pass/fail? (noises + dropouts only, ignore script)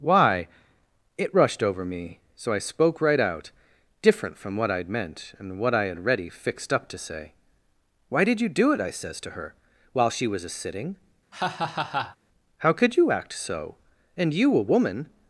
fail